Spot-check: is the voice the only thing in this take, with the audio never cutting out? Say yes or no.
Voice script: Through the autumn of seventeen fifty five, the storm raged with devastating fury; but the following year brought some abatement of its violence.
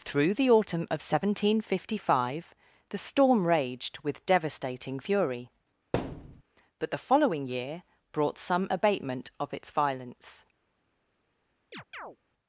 no